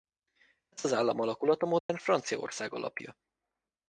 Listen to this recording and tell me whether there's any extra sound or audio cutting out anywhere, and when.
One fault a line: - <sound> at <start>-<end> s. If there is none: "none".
- dropout at 1.8-1.9 s